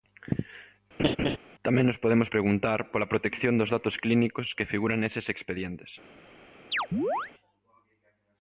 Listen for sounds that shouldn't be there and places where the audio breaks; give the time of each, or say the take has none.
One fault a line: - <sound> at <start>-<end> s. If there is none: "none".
- laugh at 1.0-1.4 s
- chirp at 6.7-7.3 s